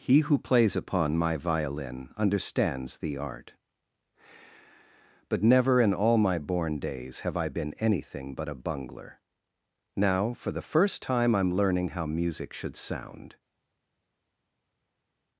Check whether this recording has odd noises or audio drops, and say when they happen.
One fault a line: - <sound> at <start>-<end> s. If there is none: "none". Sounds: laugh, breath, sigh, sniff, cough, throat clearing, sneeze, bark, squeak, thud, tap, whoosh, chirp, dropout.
none